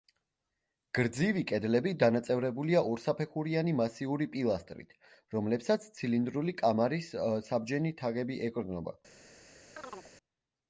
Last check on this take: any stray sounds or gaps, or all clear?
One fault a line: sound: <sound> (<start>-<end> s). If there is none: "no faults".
sound: chirp (9.8-10.1 s)